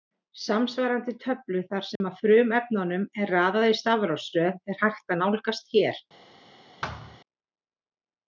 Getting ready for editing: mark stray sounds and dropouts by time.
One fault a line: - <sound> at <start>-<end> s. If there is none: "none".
- dropout at 2.0-2.0 s
- thud at 6.8-7.2 s